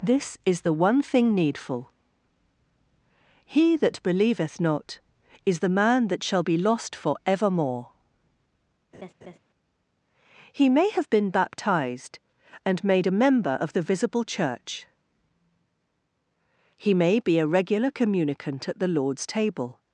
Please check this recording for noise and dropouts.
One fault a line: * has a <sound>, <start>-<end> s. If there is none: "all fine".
* has a laugh, 8.9-9.4 s